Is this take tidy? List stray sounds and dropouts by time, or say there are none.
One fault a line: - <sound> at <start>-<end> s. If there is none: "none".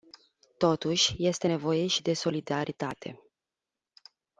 none